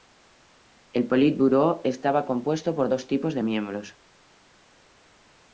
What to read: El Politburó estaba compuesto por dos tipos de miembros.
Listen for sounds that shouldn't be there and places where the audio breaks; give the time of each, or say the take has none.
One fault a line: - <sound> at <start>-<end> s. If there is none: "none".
none